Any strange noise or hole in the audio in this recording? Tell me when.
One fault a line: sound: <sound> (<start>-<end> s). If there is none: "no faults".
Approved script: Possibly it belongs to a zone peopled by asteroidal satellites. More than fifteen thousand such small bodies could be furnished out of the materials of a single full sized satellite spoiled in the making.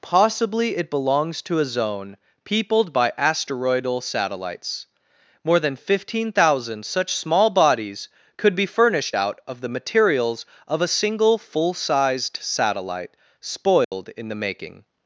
sound: dropout (13.8-13.9 s)